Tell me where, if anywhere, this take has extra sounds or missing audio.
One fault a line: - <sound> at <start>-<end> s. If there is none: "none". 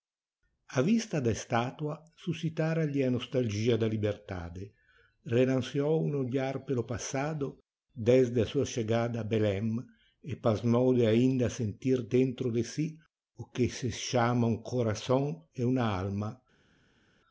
none